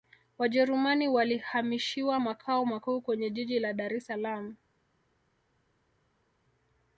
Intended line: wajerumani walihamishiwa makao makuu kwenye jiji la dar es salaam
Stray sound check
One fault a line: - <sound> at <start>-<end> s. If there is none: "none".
none